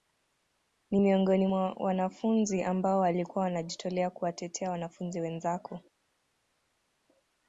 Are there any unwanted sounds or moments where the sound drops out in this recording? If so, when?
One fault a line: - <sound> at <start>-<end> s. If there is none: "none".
none